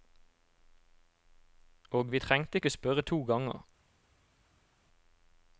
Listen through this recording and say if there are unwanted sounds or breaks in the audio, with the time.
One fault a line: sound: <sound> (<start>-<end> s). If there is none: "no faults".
no faults